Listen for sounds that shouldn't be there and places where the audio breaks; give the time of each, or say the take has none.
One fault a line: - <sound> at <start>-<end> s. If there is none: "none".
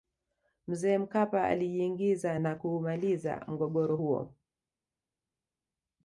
none